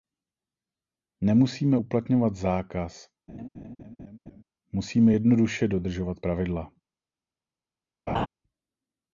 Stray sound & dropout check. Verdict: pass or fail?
fail